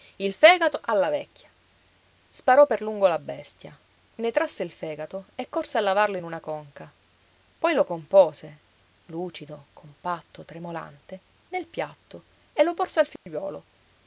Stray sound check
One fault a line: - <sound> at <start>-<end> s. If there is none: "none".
- dropout at 13.2-13.3 s